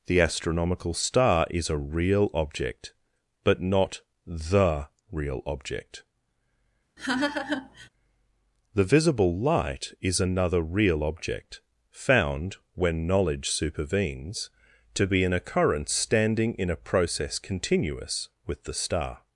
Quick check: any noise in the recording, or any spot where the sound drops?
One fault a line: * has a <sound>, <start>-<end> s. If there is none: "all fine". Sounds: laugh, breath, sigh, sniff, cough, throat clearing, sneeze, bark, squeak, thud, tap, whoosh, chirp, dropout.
* has a laugh, 7.0-7.9 s